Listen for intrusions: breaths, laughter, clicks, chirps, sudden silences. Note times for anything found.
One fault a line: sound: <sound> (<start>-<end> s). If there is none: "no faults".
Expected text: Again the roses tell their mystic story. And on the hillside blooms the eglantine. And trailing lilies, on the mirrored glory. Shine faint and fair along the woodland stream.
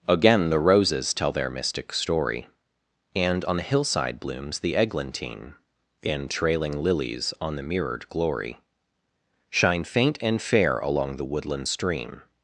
no faults